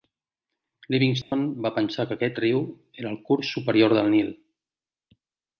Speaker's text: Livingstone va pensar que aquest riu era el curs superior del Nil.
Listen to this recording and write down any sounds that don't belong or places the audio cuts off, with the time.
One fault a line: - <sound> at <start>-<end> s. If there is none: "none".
- dropout at 1.2-1.3 s